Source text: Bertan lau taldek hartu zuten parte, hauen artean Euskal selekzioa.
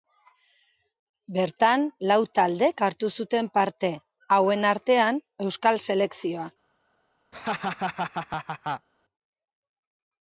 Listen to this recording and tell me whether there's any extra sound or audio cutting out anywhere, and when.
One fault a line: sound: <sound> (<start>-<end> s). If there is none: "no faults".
sound: laugh (7.3-8.9 s)